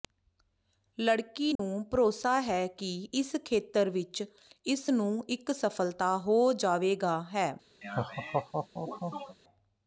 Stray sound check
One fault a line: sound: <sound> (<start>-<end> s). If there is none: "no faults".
sound: dropout (1.6-1.6 s)
sound: laugh (7.8-9.4 s)